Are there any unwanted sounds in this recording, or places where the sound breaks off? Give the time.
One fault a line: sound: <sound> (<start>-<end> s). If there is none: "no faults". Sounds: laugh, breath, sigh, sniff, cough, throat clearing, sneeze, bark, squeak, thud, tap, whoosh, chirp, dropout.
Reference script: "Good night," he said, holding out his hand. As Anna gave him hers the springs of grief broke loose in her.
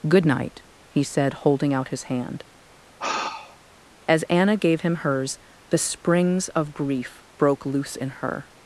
sound: sigh (3.0-3.6 s)